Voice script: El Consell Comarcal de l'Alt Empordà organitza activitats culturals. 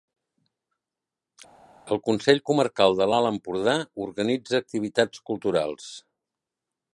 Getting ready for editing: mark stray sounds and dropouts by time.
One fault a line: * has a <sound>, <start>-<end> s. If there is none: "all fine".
all fine